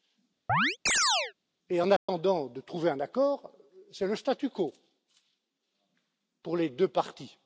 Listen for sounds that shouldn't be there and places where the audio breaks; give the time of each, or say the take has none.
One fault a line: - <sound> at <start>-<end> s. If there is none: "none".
- chirp at 0.5-1.3 s
- dropout at 2.0-2.1 s